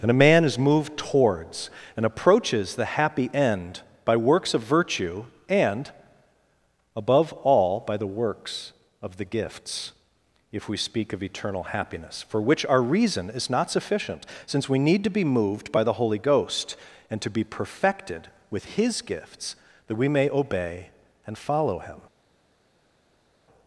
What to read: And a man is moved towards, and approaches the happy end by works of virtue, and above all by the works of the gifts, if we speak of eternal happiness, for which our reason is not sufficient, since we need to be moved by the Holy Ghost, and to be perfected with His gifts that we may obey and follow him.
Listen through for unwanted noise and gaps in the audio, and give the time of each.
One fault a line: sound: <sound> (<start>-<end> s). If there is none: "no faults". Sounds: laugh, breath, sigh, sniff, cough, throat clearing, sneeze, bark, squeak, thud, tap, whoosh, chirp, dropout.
no faults